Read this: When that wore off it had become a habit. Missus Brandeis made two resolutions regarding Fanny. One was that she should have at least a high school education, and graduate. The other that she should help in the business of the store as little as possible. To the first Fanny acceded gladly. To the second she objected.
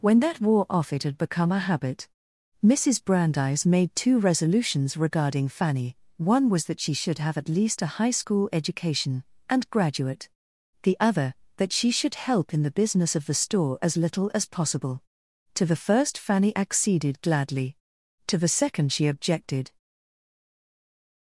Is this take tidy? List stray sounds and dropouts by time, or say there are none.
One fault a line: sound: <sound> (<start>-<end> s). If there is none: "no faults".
no faults